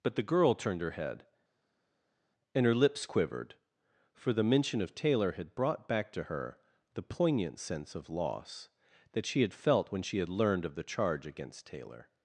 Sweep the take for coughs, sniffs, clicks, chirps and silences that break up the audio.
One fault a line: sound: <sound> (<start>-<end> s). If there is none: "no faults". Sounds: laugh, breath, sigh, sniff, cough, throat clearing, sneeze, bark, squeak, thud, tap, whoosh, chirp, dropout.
no faults